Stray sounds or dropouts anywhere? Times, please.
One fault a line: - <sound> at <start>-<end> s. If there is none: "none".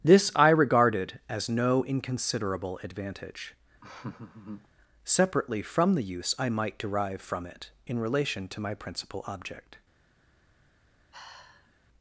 - laugh at 3.8-4.7 s
- sigh at 11.1-11.8 s